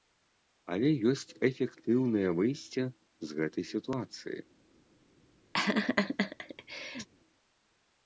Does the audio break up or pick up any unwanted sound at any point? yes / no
yes